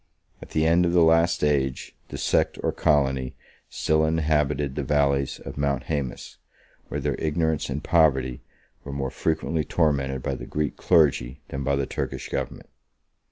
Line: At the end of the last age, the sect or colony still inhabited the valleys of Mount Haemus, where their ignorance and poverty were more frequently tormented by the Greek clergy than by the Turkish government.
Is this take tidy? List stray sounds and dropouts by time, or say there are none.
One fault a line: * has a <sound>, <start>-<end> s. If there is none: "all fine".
all fine